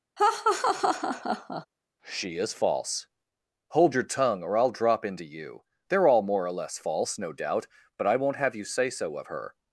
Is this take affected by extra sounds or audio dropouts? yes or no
yes